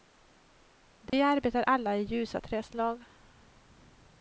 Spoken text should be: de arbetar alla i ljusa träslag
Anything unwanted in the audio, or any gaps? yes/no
yes